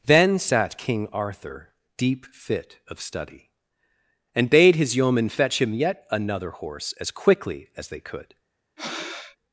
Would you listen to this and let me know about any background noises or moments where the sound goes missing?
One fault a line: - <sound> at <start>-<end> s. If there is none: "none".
- breath at 8.8-9.4 s